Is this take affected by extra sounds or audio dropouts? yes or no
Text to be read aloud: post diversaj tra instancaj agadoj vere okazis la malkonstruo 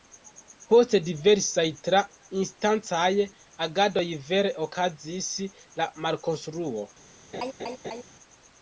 yes